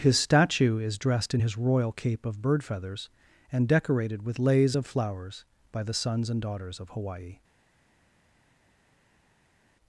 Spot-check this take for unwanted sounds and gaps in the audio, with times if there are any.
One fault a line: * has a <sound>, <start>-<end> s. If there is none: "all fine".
all fine